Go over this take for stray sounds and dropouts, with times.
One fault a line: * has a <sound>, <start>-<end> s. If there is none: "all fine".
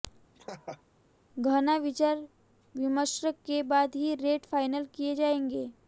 * has a laugh, 0.3-0.8 s